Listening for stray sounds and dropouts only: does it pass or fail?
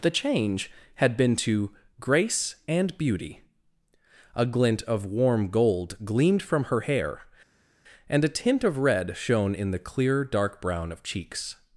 pass